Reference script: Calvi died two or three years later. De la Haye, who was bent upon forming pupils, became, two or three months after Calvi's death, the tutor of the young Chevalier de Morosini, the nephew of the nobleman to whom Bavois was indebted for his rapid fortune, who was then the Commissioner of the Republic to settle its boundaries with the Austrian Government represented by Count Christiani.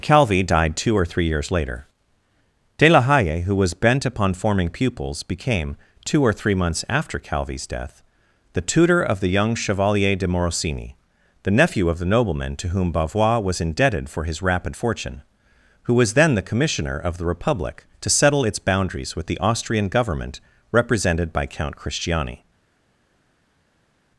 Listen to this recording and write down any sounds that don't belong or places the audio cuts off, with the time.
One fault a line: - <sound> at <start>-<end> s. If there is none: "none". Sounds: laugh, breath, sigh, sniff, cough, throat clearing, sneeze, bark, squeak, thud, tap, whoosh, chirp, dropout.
none